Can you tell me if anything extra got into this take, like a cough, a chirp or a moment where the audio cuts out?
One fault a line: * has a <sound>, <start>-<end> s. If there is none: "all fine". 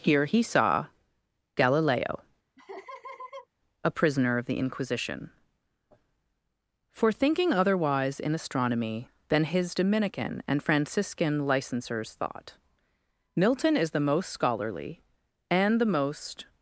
* has a laugh, 2.6-3.5 s